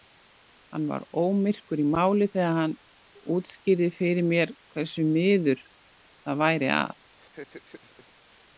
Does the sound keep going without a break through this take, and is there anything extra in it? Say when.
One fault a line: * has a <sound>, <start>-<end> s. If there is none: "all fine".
* has a laugh, 7.2-8.4 s